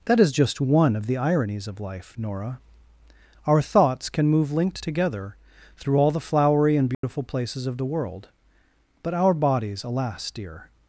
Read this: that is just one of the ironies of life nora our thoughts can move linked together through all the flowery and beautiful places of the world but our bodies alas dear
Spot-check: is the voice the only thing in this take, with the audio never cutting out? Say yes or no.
no